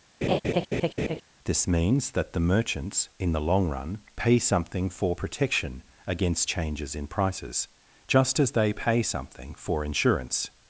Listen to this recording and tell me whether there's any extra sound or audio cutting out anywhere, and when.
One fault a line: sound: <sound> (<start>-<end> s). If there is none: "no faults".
sound: laugh (0.2-1.2 s)